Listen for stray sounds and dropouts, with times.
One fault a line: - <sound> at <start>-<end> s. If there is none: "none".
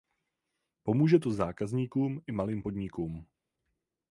none